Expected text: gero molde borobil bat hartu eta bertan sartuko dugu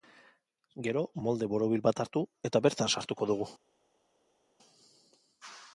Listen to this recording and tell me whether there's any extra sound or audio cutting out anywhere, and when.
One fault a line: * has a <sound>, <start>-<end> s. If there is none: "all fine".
all fine